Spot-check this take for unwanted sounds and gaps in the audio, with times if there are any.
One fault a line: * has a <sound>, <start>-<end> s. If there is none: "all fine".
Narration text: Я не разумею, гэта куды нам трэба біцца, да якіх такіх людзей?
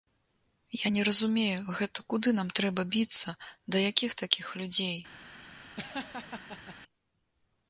* has a laugh, 5.8-6.8 s